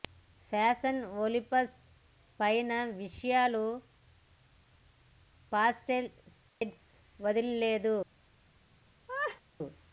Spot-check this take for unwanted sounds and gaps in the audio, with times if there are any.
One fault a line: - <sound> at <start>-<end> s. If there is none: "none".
- dropout at 6.5-6.6 s
- laugh at 9.1-9.4 s